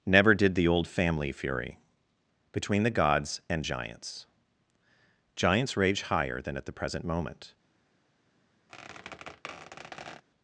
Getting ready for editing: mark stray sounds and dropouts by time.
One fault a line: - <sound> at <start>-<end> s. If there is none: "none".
- squeak at 8.7-10.2 s